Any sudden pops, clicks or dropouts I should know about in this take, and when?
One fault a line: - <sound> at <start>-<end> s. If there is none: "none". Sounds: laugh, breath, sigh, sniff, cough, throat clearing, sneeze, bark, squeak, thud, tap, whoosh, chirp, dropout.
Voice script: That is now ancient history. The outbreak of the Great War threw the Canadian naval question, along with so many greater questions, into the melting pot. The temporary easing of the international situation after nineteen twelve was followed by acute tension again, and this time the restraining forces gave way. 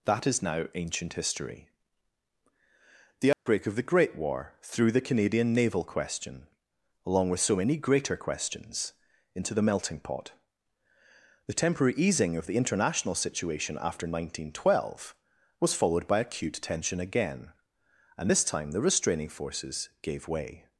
- dropout at 3.3-3.5 s